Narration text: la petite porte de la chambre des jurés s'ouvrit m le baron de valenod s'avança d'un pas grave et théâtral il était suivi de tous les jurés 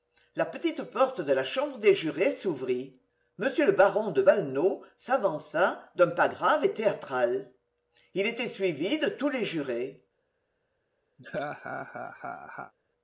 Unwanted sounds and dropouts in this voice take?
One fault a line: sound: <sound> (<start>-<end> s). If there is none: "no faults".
sound: laugh (11.2-12.7 s)